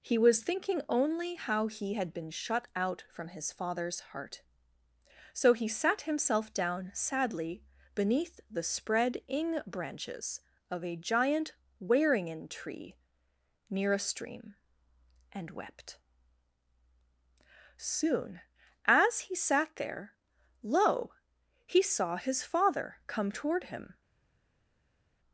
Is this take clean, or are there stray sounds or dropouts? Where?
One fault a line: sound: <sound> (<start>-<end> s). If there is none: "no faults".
no faults